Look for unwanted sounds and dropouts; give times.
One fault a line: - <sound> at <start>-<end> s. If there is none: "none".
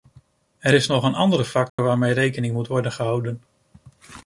- dropout at 1.7-1.8 s